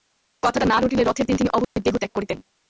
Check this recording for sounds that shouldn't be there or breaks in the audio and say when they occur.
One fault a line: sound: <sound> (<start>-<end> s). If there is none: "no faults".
sound: dropout (1.6-1.8 s)